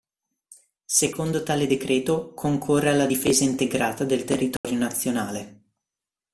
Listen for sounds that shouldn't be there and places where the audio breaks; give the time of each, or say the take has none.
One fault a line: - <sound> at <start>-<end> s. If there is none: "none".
- dropout at 4.6-4.6 s